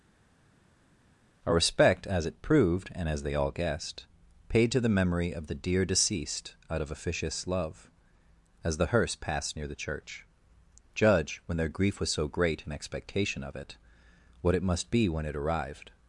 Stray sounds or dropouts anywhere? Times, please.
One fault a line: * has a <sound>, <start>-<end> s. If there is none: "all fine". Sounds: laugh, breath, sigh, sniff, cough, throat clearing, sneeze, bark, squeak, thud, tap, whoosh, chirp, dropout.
all fine